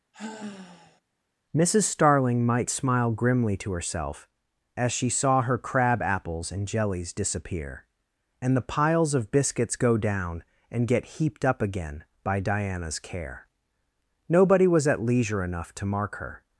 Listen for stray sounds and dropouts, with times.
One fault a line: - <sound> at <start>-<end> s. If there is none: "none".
- sigh at 0.1-1.0 s